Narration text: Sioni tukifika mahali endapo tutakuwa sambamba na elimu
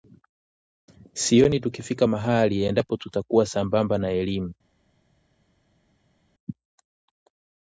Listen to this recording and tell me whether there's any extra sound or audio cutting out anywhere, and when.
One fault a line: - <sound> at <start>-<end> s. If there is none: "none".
none